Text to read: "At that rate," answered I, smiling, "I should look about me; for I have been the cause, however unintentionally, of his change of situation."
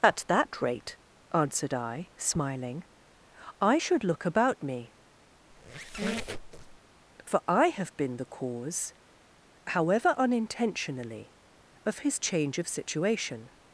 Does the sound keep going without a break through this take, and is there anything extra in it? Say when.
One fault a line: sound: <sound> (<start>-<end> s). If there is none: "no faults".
sound: squeak (5.5-6.8 s)